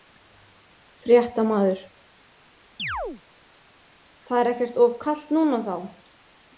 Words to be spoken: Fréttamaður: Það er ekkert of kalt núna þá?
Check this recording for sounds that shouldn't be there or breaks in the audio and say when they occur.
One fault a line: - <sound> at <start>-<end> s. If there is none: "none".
- chirp at 2.8-3.2 s